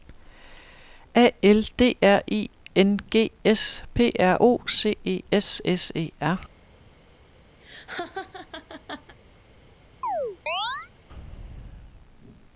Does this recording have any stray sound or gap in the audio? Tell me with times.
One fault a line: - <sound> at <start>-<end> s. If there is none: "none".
- laugh at 7.6-9.2 s
- chirp at 10.0-10.9 s